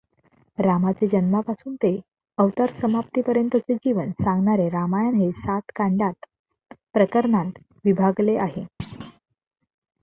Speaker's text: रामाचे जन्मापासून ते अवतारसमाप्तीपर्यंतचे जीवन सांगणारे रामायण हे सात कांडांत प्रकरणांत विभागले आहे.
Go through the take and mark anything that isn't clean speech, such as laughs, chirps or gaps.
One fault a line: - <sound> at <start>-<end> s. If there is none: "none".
- thud at 8.8-9.2 s